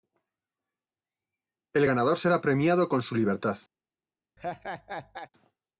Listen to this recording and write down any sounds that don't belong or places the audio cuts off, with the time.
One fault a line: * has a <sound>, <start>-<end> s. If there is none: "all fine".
* has a laugh, 4.4-5.3 s